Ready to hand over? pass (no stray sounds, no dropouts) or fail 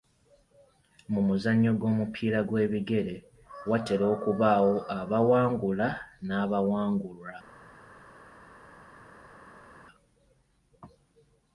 pass